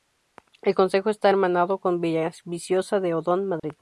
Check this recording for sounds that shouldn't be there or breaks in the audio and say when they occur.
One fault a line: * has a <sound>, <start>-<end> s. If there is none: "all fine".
* has a dropout, 3.6-3.6 s